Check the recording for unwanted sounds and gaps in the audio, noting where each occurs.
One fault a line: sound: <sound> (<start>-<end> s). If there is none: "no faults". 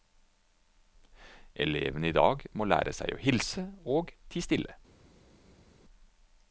no faults